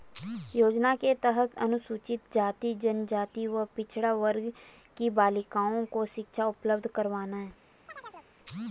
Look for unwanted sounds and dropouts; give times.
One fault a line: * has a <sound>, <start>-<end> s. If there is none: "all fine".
* has a chirp, 7.9-8.3 s